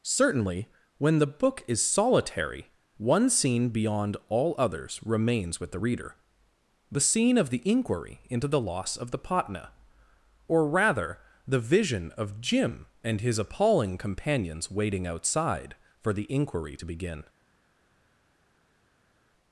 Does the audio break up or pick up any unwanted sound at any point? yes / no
no